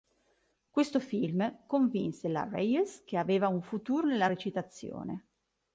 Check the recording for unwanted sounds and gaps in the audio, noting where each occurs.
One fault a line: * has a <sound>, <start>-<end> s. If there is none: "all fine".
all fine